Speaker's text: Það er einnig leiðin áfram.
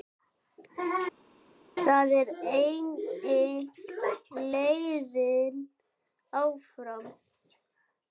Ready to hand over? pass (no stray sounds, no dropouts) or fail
pass